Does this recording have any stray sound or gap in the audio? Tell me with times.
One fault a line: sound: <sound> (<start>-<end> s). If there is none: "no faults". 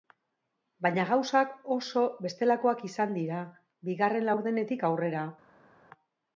no faults